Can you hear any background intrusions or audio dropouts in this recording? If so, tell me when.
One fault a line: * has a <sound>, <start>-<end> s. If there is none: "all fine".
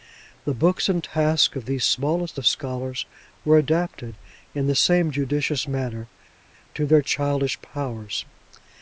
all fine